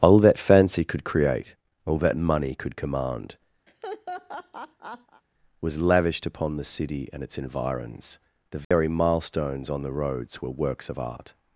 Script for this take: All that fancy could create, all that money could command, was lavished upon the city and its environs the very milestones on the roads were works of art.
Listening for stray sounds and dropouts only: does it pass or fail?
fail